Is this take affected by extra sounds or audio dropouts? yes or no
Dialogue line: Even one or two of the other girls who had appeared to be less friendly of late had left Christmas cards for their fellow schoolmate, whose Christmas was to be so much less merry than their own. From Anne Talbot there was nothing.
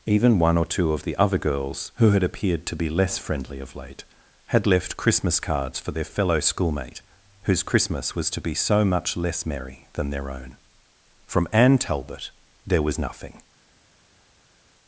no